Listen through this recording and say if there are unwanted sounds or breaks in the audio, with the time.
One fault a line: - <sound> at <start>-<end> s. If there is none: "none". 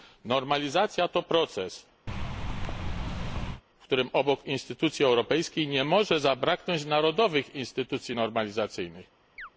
- thud at 2.1-3.6 s
- chirp at 9.4-9.5 s